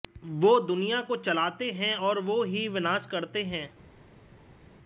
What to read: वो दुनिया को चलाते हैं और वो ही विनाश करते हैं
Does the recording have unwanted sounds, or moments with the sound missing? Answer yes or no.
no